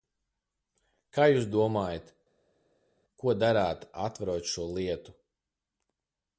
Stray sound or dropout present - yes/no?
no